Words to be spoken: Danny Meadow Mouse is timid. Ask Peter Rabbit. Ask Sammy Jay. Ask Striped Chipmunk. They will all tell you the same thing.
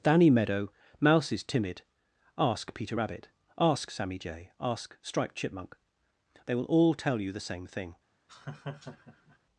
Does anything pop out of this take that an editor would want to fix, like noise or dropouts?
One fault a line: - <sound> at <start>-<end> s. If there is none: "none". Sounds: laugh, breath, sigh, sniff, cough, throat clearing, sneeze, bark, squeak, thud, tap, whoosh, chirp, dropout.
- laugh at 8.3-9.4 s